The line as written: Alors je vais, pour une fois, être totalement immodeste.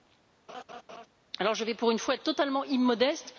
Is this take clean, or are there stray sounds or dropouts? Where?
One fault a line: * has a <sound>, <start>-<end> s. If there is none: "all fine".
* has a laugh, 0.5-1.1 s